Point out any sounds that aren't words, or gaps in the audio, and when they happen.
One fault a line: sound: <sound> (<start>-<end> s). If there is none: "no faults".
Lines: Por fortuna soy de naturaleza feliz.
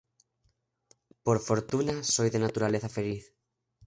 no faults